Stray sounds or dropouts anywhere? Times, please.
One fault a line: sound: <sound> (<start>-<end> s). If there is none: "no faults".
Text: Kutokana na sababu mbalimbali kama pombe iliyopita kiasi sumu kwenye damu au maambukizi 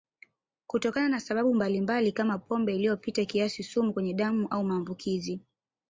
no faults